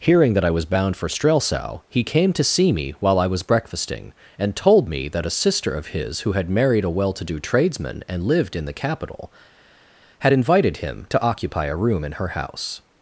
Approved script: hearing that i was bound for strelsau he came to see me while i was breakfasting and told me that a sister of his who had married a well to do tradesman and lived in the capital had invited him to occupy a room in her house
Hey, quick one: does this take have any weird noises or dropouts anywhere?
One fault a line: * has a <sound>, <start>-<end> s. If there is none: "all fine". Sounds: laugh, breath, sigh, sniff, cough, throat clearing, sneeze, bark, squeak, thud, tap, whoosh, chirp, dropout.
all fine